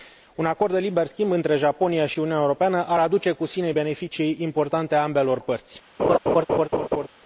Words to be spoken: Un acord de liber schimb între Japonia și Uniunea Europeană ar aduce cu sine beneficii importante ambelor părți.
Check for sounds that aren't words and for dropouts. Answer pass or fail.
fail